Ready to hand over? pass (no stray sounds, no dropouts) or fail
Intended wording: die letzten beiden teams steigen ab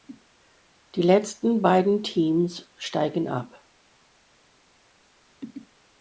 pass